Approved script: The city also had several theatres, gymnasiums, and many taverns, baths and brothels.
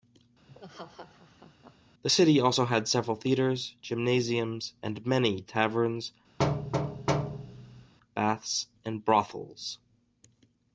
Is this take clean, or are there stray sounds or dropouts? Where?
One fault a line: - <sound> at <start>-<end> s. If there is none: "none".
- laugh at 0.5-1.8 s
- thud at 6.4-7.9 s